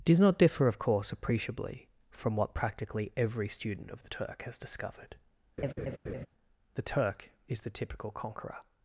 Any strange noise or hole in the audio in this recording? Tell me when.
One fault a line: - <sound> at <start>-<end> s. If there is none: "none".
- laugh at 5.6-6.3 s